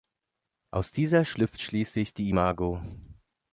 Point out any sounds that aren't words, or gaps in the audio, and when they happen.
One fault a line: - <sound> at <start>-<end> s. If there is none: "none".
none